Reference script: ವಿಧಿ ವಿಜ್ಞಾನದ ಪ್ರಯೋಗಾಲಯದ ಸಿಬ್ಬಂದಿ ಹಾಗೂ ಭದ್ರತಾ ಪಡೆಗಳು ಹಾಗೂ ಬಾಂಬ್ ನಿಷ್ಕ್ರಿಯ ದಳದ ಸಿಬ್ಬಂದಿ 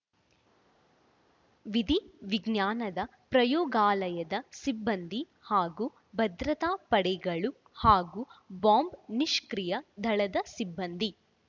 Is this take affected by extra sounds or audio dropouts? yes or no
no